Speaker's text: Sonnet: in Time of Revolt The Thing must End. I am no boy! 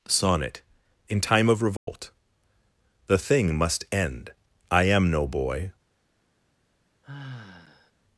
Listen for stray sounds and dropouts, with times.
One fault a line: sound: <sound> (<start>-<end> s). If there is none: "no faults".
sound: dropout (1.8-1.9 s)
sound: sigh (7.0-7.9 s)